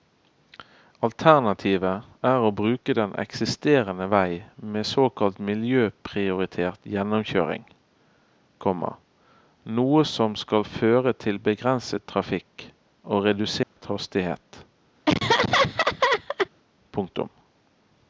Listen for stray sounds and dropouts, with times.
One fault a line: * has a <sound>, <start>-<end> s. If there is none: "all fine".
* has a dropout, 13.6-13.8 s
* has a laugh, 15.1-16.5 s